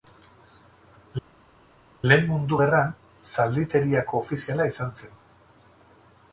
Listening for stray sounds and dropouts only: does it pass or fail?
pass